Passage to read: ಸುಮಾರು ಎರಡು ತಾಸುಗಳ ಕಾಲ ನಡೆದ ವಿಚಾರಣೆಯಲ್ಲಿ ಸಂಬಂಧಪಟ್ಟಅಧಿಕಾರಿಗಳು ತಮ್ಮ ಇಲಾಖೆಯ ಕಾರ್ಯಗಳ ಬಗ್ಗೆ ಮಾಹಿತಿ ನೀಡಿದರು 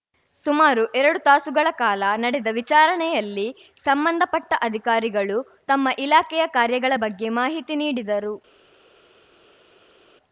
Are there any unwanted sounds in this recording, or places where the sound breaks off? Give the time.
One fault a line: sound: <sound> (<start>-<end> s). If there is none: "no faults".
no faults